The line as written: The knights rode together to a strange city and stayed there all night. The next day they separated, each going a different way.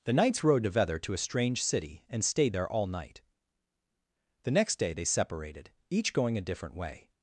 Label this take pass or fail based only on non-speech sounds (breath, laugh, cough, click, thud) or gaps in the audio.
pass